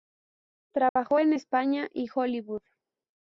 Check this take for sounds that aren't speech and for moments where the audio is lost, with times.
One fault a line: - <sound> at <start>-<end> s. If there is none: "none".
- dropout at 0.9-1.0 s